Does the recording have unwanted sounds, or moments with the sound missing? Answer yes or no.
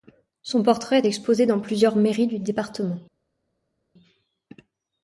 no